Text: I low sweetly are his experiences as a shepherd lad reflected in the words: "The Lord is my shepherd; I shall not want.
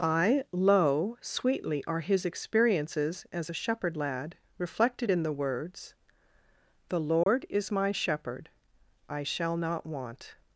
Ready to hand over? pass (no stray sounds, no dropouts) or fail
fail